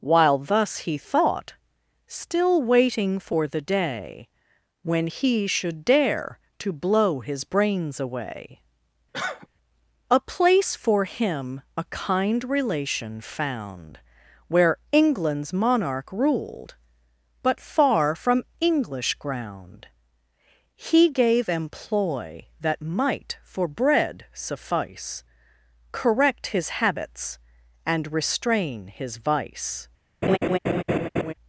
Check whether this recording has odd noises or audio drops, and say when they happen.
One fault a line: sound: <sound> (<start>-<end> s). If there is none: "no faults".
sound: cough (9.1-9.5 s)
sound: laugh (30.2-31.3 s)